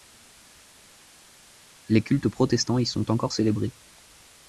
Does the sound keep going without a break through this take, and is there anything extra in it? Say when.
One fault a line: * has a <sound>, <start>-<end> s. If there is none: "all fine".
all fine